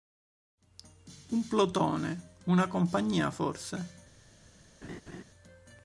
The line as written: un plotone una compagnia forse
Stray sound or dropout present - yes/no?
yes